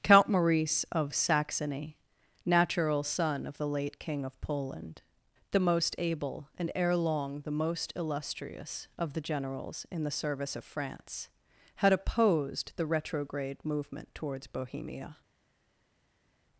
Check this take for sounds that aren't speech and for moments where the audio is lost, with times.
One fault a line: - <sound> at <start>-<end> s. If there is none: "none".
none